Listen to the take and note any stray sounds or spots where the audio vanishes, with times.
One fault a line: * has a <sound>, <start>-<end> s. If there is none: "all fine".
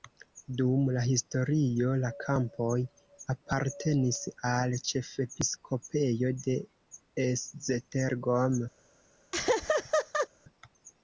* has a laugh, 9.3-10.3 s